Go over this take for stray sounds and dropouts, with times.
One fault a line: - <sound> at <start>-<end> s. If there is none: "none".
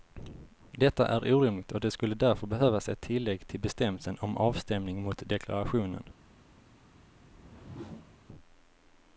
- whoosh at 7.2-8.2 s